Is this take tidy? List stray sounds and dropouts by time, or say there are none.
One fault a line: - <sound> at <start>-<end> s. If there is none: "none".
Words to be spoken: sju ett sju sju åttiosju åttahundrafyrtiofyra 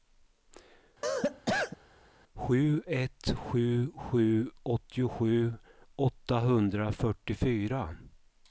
- cough at 1.0-1.8 s